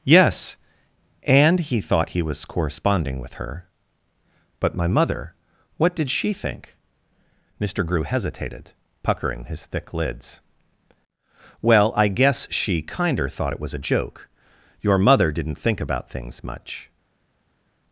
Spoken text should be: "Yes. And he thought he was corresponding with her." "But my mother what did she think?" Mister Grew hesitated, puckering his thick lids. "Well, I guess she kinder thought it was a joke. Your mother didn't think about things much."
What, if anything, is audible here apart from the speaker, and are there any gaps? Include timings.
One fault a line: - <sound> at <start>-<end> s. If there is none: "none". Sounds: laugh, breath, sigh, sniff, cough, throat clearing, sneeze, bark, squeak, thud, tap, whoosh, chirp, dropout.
none